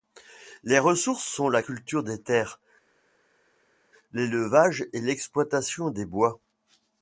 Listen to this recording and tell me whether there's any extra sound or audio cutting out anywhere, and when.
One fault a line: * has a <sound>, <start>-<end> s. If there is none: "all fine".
all fine